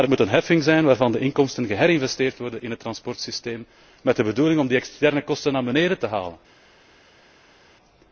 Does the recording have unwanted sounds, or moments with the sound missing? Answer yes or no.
no